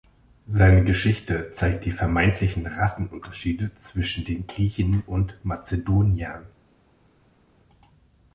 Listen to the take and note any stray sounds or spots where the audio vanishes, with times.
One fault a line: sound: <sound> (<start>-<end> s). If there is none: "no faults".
no faults